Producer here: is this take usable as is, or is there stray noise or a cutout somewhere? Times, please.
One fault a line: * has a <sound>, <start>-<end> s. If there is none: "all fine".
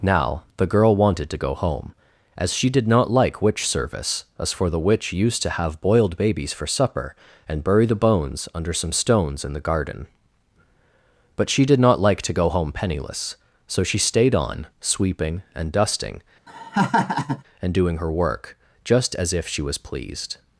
* has a laugh, 16.5-17.4 s